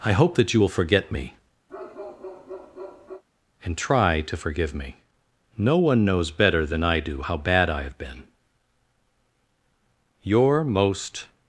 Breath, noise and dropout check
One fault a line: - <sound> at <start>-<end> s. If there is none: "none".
- bark at 1.7-3.2 s